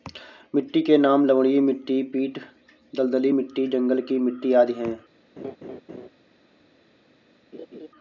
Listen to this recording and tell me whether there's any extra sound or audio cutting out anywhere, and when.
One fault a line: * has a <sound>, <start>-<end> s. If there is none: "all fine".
* has a laugh, 5.4-6.1 s
* has a laugh, 7.5-7.9 s